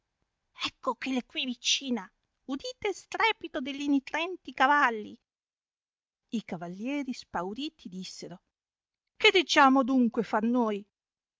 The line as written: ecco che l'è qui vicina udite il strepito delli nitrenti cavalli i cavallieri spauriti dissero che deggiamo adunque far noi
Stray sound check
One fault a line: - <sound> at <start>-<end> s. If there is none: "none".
none